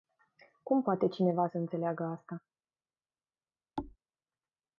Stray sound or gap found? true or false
true